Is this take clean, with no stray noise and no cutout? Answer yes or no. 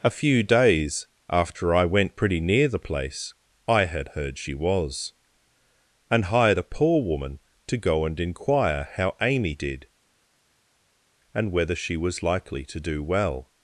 yes